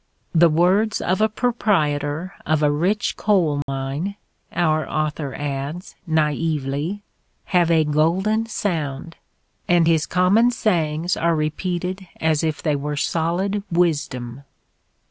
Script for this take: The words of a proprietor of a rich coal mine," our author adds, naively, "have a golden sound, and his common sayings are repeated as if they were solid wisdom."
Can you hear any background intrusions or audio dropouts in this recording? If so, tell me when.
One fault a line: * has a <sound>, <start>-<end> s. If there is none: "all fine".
* has a dropout, 3.6-3.7 s